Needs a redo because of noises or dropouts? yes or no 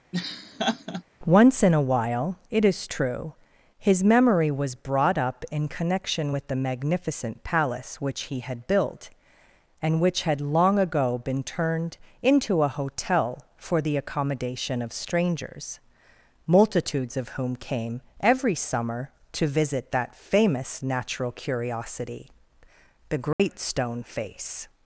yes